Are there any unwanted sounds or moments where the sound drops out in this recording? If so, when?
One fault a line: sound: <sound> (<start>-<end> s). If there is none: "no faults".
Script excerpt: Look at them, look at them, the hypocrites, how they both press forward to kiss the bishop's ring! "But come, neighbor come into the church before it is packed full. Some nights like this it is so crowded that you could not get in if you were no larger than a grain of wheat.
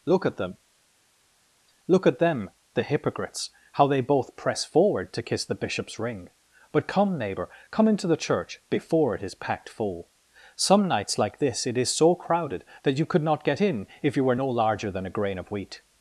no faults